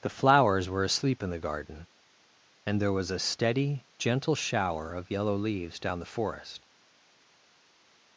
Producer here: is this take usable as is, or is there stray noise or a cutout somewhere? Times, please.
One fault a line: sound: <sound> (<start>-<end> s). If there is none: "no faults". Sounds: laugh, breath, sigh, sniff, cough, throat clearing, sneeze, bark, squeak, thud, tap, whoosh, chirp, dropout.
no faults